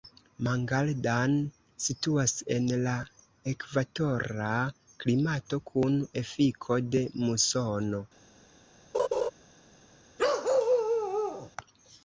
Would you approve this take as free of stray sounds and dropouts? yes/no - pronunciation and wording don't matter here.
no